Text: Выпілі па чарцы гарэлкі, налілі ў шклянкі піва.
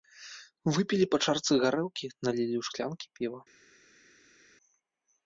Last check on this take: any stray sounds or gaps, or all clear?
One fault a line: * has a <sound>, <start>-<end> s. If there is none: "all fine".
all fine